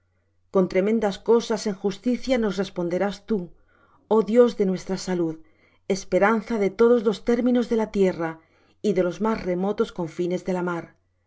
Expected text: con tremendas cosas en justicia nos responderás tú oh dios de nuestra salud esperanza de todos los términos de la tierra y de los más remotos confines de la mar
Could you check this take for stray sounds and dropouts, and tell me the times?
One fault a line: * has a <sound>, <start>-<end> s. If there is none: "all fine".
all fine